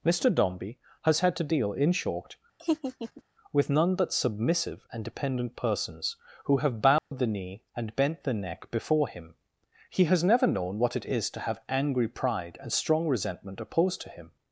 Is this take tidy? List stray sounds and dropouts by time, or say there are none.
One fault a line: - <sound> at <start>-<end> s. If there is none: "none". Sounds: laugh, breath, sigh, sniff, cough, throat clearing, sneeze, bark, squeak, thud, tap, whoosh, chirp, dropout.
- laugh at 2.6-3.2 s
- dropout at 7.0-7.1 s